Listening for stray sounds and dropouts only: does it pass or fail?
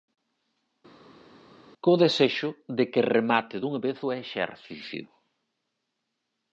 pass